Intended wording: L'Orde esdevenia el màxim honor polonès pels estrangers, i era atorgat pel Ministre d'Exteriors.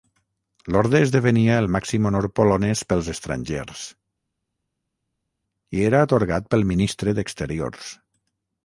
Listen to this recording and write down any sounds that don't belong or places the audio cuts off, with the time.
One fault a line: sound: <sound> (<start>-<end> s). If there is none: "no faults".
no faults